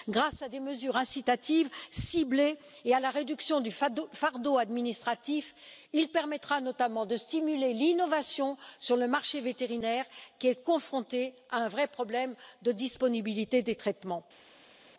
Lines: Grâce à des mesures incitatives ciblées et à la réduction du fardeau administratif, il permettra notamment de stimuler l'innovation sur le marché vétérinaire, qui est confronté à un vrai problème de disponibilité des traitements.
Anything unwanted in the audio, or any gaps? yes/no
no